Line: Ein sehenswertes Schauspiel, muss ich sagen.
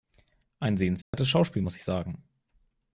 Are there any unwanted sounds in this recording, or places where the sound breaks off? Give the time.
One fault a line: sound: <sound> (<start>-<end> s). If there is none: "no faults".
sound: dropout (1.0-1.1 s)